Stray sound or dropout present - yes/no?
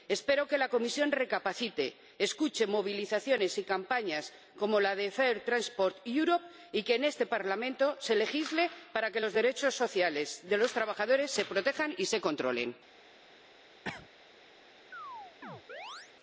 yes